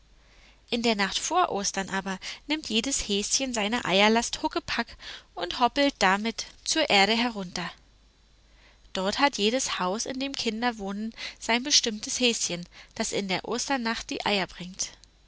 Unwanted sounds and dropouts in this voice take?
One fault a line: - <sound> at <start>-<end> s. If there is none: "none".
none